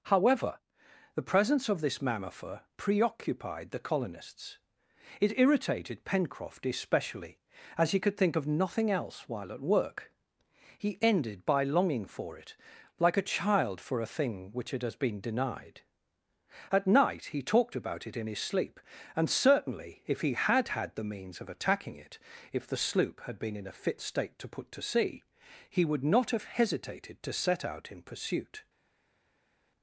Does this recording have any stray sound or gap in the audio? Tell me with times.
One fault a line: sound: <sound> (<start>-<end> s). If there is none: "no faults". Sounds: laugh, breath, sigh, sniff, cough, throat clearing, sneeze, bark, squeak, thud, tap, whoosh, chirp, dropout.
no faults